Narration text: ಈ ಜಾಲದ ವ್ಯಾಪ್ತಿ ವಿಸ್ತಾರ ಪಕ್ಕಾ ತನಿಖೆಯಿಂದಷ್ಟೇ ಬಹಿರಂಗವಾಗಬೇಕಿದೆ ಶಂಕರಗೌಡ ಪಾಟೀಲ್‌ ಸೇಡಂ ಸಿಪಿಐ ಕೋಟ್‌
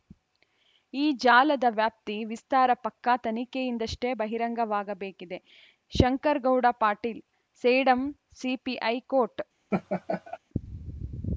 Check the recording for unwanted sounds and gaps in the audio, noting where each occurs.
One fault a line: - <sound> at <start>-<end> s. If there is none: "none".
- laugh at 9.7-10.4 s